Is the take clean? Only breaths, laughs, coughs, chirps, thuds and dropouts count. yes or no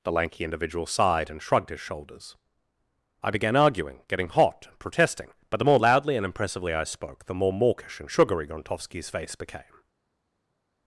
yes